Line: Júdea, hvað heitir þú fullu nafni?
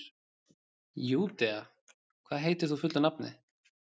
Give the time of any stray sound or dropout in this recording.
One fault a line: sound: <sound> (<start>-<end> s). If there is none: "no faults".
no faults